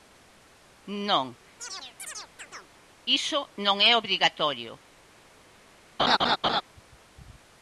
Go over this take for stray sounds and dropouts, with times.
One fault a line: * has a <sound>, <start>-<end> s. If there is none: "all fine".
* has a chirp, 1.6-2.8 s
* has a laugh, 6.0-6.6 s